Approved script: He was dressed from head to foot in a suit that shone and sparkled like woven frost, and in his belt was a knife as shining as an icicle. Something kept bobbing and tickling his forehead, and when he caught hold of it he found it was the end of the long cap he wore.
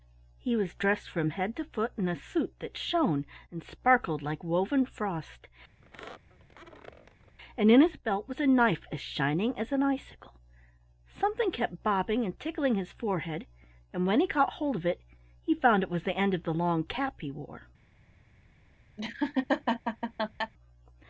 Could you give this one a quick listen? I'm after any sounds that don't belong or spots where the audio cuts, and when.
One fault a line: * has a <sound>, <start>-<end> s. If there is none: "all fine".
* has a squeak, 5.8-7.4 s
* has a laugh, 19.0-20.5 s